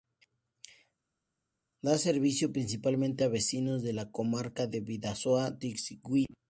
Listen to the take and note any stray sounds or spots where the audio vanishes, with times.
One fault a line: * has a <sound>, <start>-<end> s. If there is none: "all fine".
all fine